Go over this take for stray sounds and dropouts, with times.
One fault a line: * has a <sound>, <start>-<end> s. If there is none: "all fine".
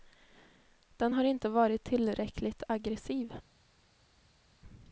all fine